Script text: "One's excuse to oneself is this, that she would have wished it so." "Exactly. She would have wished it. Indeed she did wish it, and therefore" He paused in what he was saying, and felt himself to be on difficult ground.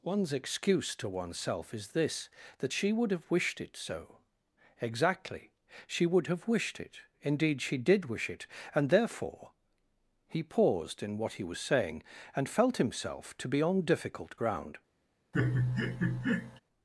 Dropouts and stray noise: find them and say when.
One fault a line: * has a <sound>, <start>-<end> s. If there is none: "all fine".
* has a laugh, 15.3-16.6 s